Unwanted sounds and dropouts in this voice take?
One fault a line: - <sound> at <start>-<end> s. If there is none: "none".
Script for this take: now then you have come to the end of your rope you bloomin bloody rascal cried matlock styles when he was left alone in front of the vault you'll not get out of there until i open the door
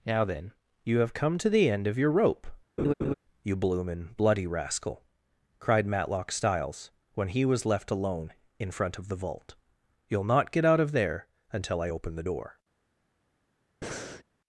- laugh at 2.8-3.1 s
- breath at 13.8-14.2 s